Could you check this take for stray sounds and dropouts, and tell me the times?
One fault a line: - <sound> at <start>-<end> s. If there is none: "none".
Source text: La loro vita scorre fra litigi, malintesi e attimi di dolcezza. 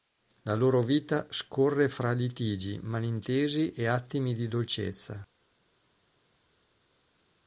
none